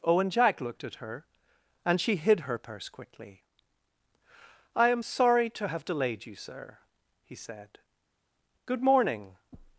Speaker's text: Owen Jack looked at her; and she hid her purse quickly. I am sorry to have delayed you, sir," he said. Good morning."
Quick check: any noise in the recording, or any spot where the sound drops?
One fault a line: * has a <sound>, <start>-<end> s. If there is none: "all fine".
all fine